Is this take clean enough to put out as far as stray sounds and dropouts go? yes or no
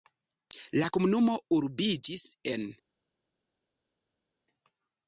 yes